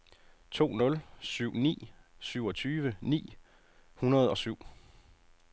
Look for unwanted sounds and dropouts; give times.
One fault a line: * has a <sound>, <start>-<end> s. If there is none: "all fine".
all fine